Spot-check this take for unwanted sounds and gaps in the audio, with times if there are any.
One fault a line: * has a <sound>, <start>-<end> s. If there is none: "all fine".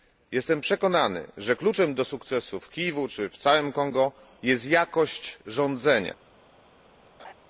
* has a laugh, 7.2-7.3 s